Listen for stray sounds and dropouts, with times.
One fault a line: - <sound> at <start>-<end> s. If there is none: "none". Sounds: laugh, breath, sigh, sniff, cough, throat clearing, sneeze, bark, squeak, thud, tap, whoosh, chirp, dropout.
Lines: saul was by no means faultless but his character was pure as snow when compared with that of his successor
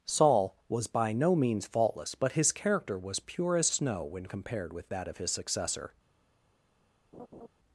- laugh at 7.1-7.5 s